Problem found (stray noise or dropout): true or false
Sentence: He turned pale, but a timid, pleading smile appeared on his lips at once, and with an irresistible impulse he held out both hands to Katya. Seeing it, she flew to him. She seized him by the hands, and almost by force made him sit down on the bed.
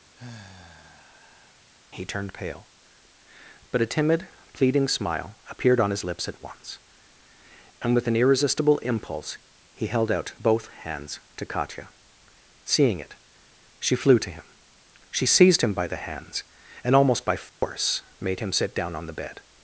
true